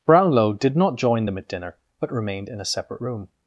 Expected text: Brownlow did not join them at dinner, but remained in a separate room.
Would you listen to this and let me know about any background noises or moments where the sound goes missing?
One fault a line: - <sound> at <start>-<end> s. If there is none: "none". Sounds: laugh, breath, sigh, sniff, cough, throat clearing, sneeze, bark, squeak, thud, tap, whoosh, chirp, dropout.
none